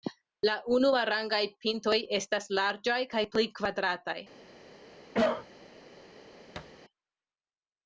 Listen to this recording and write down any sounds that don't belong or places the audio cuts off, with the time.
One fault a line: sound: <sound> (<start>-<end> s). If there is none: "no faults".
sound: cough (5.1-5.5 s)
sound: thud (6.6-6.8 s)